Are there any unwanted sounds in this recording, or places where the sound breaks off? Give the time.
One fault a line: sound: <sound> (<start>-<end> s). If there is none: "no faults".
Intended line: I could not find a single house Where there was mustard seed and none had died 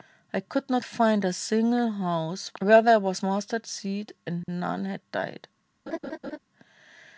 sound: dropout (4.4-4.5 s)
sound: laugh (5.9-6.4 s)